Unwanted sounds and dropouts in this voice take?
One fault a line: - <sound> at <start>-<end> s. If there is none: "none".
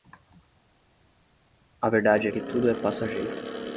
none